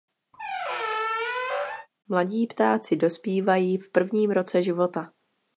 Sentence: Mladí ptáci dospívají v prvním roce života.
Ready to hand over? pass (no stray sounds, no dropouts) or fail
fail